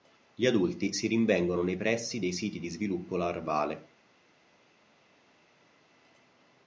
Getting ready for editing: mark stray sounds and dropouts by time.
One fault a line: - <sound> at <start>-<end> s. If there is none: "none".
none